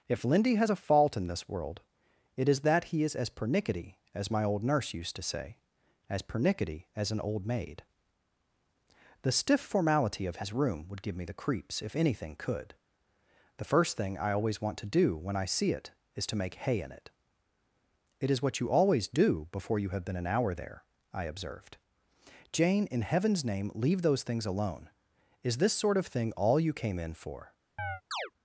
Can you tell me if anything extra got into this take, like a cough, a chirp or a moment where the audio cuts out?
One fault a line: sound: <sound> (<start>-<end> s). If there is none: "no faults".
sound: chirp (27.8-28.3 s)